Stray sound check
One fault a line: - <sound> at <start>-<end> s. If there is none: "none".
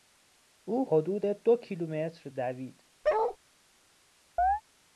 - bark at 3.0-3.4 s
- chirp at 4.4-4.6 s